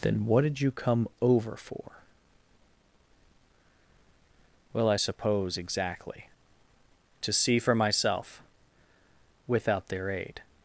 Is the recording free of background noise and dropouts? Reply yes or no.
yes